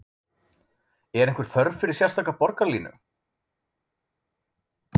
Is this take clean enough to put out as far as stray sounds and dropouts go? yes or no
yes